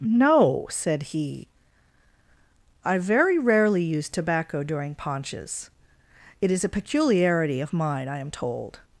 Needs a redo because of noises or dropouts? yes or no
no